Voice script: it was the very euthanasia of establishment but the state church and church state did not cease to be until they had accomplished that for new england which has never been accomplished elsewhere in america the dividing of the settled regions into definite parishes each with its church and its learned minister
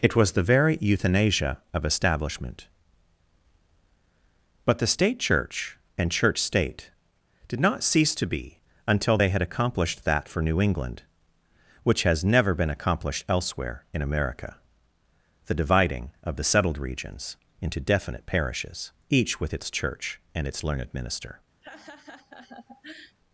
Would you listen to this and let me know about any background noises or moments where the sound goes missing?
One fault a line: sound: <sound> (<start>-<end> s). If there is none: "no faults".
sound: laugh (21.6-23.2 s)